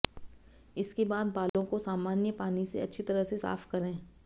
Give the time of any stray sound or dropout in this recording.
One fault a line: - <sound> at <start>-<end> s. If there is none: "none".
- dropout at 1.5-1.5 s